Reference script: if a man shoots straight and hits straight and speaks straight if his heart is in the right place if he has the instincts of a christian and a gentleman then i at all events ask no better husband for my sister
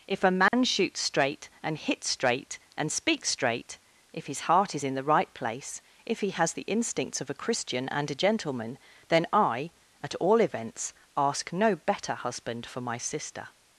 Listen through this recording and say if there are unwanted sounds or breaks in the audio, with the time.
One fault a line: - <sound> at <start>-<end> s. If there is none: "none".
- dropout at 0.5-0.5 s